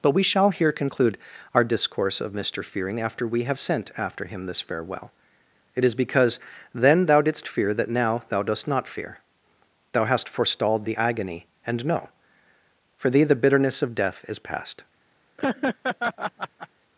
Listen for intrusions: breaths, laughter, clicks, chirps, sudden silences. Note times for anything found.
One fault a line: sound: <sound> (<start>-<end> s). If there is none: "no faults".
sound: laugh (15.4-16.7 s)